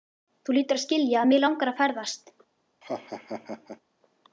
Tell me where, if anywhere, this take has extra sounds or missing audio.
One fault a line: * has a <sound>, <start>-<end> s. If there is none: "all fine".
* has a laugh, 2.8-3.8 s